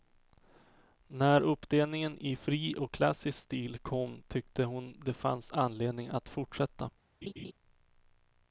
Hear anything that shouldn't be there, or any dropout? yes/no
yes